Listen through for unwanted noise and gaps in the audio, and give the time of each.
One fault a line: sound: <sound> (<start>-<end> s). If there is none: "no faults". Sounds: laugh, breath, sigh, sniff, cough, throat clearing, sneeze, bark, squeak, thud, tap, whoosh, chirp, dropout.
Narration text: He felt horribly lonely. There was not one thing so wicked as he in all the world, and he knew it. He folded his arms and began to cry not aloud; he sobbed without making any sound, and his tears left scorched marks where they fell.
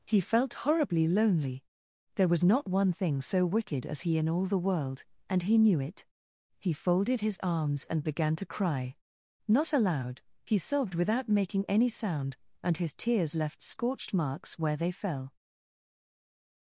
no faults